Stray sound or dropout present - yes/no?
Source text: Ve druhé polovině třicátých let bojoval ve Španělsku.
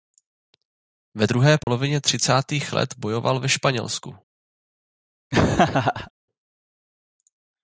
yes